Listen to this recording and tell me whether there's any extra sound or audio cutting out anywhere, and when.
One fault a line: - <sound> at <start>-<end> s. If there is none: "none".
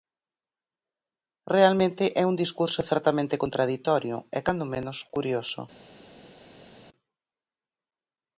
none